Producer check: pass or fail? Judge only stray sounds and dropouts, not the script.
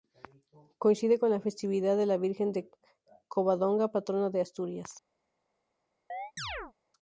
fail